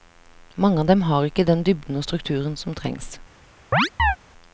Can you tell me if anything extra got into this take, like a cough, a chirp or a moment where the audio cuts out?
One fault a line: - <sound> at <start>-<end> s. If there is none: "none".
- chirp at 3.7-4.2 s